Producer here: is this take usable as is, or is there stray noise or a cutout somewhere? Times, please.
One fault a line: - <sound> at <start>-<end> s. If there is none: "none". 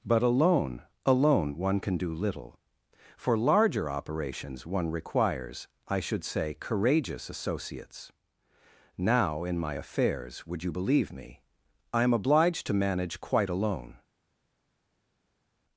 none